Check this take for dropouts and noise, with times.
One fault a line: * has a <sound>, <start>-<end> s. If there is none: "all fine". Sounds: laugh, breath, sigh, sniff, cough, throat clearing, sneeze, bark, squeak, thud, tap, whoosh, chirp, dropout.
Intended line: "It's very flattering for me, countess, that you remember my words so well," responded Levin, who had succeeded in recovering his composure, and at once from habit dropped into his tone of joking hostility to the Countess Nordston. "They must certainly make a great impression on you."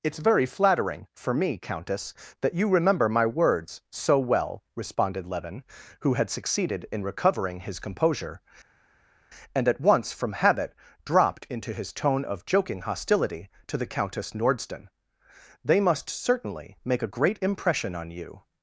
all fine